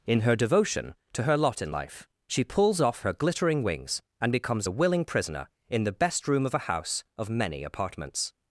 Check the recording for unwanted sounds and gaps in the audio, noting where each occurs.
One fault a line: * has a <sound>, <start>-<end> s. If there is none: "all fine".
all fine